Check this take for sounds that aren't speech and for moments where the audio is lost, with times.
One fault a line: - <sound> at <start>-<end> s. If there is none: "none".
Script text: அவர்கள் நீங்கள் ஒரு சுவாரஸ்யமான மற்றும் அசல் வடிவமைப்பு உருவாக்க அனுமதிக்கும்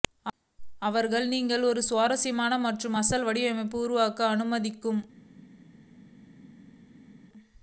none